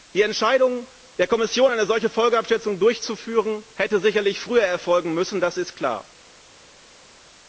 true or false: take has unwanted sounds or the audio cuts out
false